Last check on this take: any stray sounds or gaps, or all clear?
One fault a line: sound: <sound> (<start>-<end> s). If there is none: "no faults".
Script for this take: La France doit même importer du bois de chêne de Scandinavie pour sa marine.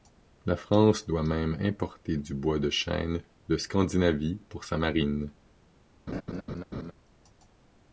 sound: laugh (6.1-6.9 s)